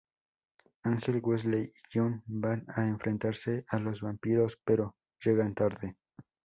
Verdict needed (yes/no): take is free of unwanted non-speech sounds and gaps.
yes